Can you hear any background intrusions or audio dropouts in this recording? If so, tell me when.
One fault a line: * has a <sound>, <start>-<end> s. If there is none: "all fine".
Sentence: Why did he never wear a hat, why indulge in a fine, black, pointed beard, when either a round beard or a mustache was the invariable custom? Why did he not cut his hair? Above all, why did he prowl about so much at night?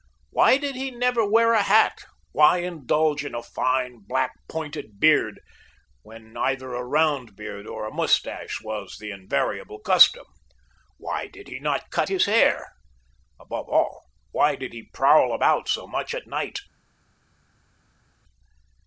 all fine